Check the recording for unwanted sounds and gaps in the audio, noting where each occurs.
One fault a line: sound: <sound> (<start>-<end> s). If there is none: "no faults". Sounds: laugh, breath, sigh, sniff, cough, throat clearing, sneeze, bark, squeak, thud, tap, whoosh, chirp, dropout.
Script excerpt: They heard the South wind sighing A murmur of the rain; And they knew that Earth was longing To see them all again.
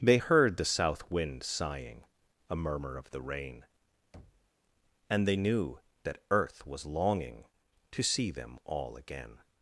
sound: thud (4.1-4.5 s)